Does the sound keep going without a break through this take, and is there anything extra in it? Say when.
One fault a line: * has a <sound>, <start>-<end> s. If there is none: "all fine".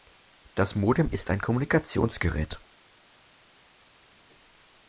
all fine